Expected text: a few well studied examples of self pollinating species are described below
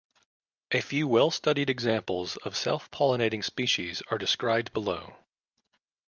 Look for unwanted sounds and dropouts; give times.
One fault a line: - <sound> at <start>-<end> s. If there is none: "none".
none